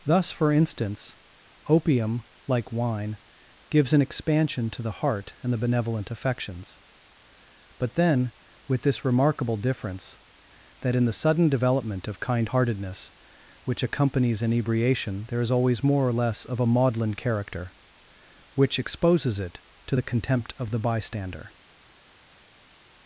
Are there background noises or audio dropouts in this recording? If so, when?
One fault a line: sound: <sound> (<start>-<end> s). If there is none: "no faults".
no faults